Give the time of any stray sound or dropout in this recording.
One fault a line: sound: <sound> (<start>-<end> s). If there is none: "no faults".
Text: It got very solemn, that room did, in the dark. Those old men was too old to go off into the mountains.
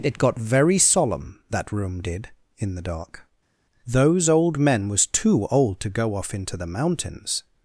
no faults